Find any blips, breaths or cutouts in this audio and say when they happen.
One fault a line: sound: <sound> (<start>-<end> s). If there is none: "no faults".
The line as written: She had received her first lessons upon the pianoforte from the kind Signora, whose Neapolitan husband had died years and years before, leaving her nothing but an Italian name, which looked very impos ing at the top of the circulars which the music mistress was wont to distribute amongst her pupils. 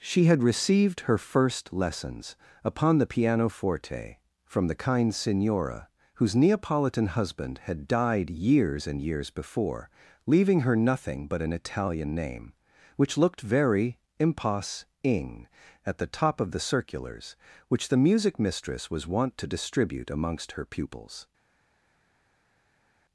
no faults